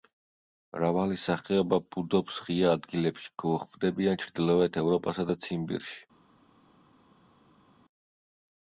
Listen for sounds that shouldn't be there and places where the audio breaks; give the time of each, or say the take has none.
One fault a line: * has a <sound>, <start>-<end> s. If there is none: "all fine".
all fine